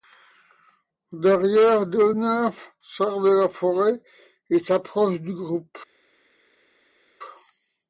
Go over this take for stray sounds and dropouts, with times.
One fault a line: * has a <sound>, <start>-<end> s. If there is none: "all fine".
all fine